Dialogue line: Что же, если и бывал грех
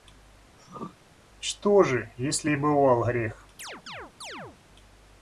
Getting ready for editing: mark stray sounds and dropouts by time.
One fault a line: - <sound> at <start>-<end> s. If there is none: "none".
- throat clearing at 0.6-1.0 s
- chirp at 3.6-4.6 s